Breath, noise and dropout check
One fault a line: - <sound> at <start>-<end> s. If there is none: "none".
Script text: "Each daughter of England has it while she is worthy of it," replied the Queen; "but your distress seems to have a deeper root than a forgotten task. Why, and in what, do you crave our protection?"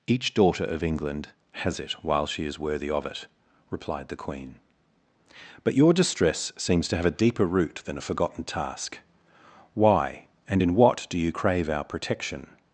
none